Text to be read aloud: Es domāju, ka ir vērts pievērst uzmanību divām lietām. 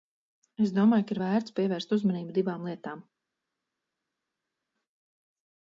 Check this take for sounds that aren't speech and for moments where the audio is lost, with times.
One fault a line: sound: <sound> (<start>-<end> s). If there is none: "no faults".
no faults